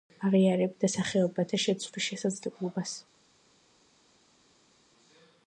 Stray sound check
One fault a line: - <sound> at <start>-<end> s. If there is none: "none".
none